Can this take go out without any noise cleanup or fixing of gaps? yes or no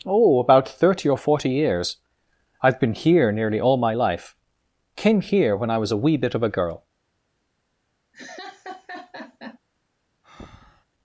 no